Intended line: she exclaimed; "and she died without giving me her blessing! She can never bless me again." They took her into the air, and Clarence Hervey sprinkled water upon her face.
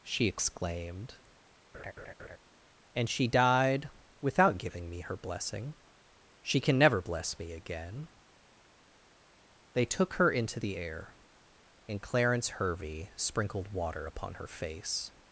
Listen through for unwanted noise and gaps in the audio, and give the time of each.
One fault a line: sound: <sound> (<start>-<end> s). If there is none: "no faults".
sound: laugh (1.7-2.4 s)